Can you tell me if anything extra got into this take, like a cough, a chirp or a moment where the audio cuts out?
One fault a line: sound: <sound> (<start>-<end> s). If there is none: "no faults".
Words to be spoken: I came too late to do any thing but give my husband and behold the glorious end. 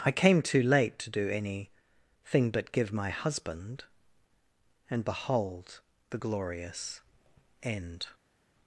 no faults